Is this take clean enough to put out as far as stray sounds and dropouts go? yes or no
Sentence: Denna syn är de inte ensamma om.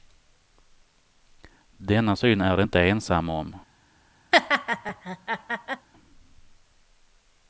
no